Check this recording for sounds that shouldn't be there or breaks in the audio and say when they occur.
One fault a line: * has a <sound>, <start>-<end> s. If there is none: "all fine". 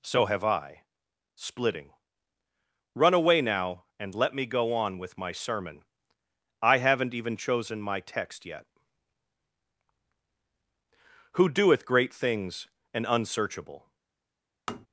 * has a tap, 14.7-14.9 s